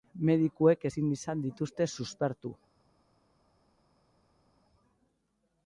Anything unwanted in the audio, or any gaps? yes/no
no